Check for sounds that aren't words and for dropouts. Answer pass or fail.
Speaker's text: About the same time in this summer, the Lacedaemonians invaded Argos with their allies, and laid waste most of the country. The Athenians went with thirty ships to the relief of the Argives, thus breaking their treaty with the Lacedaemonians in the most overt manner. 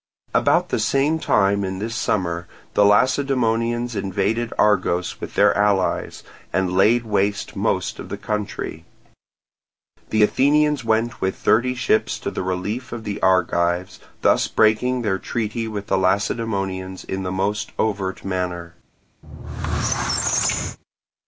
fail